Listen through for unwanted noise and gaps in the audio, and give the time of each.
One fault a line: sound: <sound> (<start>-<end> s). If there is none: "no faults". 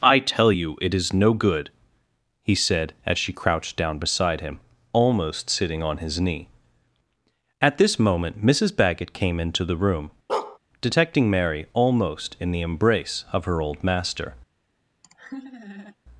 sound: bark (10.3-10.6 s)
sound: laugh (15.0-16.0 s)